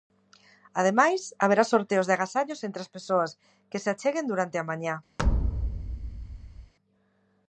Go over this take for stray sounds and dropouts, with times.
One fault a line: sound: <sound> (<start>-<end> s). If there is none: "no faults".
sound: thud (5.2-6.7 s)